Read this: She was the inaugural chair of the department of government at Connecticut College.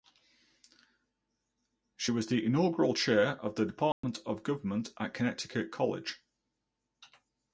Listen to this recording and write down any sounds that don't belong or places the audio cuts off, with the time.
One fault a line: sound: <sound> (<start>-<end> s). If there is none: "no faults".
sound: dropout (3.9-4.0 s)